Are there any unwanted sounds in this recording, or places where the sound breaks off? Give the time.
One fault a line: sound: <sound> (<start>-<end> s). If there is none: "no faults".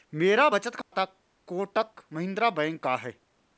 sound: dropout (0.8-0.9 s)